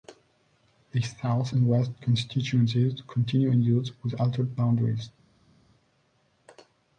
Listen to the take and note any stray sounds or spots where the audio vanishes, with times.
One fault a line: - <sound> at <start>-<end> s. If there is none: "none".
none